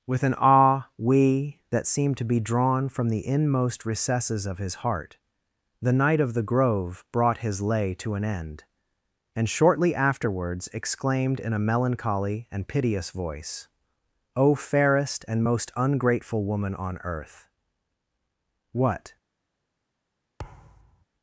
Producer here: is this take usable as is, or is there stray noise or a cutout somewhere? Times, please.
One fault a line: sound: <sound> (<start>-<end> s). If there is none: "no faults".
sound: thud (20.4-21.1 s)